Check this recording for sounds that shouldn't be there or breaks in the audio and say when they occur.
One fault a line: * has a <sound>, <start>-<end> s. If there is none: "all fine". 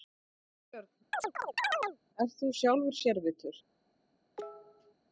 * has a chirp, 1.1-2.0 s
* has a cough, 4.4-4.9 s